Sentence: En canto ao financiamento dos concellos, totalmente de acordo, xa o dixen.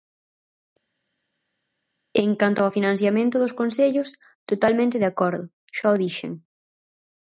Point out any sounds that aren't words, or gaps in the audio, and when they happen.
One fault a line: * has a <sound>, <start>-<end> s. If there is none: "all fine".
all fine